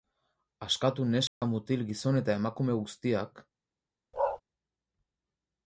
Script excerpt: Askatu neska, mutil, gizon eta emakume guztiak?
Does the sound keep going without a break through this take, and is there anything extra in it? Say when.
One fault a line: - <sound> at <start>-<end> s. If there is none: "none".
- dropout at 1.3-1.4 s
- bark at 4.1-4.4 s